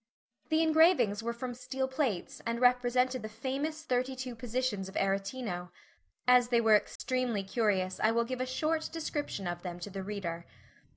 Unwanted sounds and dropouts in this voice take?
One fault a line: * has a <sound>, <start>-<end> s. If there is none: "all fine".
* has a dropout, 7.0-7.0 s